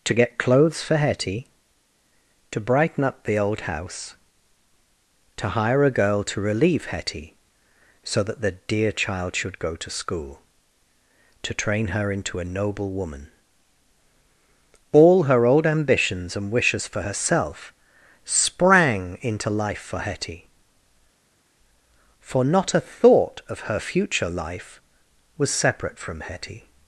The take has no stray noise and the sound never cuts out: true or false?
true